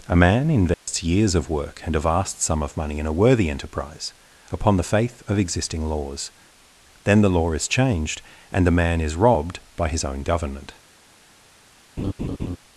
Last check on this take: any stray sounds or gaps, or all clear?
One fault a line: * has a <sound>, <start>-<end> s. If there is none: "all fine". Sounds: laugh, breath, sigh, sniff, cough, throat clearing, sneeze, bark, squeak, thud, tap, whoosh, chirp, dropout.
* has a dropout, 0.7-0.9 s
* has a laugh, 12.0-12.6 s